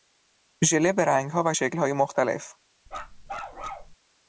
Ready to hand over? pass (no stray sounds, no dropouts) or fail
fail